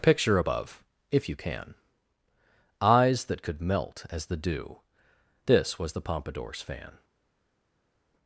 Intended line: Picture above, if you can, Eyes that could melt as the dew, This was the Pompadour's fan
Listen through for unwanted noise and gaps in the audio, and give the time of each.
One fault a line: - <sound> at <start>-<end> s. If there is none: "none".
none